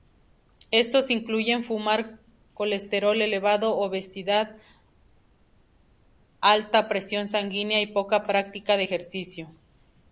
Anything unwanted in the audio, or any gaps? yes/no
no